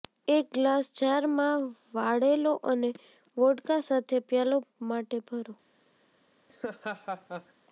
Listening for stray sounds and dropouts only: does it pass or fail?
fail